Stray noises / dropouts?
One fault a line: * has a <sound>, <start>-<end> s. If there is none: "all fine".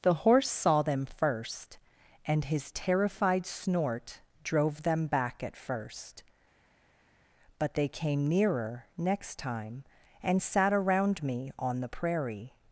all fine